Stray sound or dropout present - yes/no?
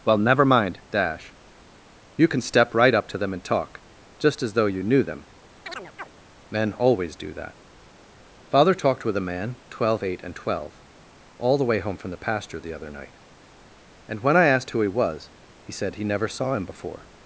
yes